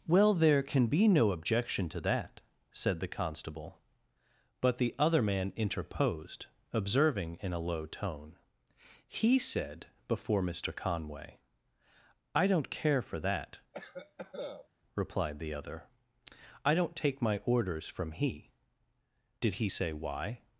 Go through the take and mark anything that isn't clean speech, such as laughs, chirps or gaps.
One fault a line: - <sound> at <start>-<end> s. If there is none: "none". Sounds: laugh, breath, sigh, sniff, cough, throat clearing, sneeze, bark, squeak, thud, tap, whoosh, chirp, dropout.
- cough at 13.7-14.7 s